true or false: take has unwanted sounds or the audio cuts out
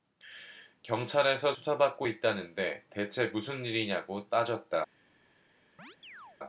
true